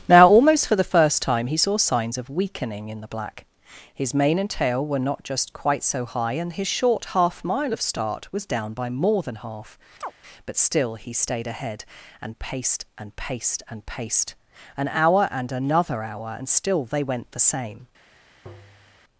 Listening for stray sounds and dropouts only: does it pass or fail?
fail